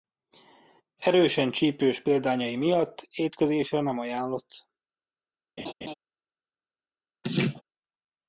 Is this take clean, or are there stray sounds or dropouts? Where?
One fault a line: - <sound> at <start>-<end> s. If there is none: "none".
- laugh at 5.6-5.9 s
- laugh at 7.2-7.6 s